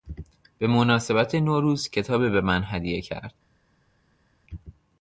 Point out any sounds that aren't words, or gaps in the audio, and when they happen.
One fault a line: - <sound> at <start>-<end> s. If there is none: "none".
none